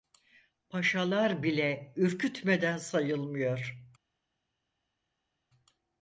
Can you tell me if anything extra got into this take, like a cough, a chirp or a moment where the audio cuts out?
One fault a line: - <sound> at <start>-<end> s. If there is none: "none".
none